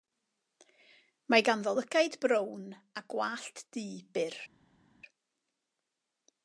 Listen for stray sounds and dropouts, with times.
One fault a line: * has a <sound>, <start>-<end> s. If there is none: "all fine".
all fine